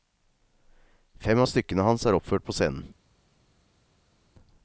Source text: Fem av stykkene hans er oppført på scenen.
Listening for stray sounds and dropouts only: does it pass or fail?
pass